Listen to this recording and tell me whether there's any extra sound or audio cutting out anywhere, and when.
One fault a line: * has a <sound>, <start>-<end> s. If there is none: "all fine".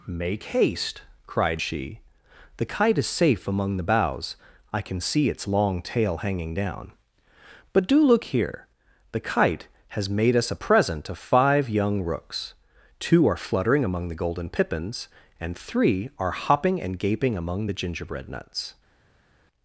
all fine